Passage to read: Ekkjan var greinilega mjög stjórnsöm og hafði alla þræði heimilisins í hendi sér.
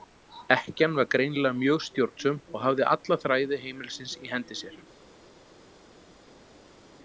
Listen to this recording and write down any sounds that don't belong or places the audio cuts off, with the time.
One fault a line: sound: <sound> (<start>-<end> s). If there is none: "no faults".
no faults